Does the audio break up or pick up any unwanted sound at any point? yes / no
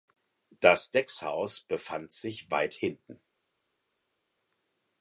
no